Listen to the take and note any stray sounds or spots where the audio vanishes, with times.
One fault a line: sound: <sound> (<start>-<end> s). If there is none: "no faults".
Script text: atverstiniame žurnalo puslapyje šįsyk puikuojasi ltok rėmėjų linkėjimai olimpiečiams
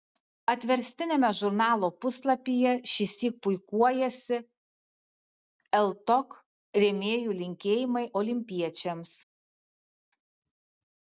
no faults